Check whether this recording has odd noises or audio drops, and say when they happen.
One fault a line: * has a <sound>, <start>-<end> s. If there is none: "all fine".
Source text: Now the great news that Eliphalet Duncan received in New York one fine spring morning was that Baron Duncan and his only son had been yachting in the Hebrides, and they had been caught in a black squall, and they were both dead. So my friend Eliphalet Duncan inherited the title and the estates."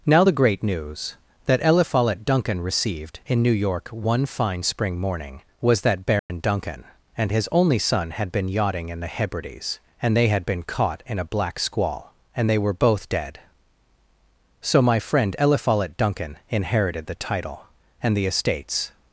* has a dropout, 6.2-6.3 s